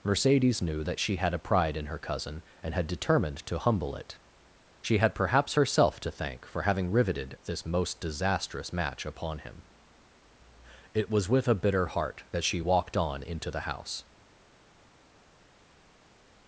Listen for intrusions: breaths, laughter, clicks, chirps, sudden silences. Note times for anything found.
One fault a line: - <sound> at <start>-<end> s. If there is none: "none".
none